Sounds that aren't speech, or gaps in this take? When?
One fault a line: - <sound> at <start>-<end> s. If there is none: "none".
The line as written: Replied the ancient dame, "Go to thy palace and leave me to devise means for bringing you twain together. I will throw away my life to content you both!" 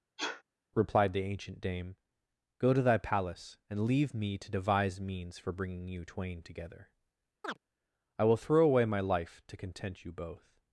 - sniff at 0.2-0.4 s
- chirp at 7.4-7.6 s